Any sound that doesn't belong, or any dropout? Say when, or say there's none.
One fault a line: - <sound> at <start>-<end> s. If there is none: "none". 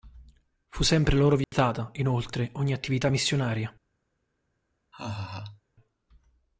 - dropout at 1.4-1.5 s
- laugh at 4.9-5.6 s